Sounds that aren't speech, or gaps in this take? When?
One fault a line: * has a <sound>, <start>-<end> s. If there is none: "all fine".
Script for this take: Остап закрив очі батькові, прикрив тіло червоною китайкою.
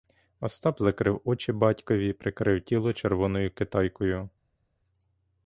all fine